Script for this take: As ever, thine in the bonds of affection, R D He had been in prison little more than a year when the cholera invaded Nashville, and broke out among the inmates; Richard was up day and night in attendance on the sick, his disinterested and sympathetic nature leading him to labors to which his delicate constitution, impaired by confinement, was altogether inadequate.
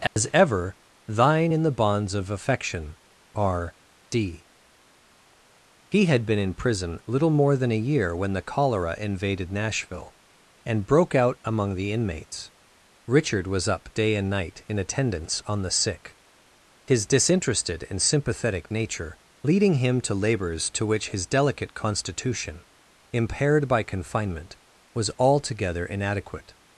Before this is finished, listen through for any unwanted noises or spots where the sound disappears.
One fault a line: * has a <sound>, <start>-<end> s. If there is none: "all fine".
* has a dropout, 0.1-0.2 s